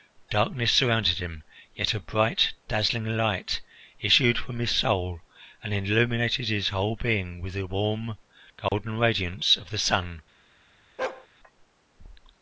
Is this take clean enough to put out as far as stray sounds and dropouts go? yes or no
no